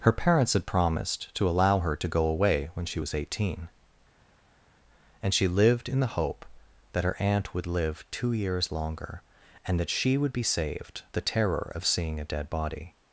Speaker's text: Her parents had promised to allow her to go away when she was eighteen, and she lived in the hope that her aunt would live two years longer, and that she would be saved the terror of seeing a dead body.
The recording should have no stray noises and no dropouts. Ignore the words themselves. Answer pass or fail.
pass